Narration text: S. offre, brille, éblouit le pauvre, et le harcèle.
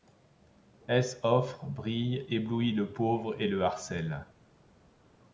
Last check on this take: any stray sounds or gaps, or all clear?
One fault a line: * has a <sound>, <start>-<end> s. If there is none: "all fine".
all fine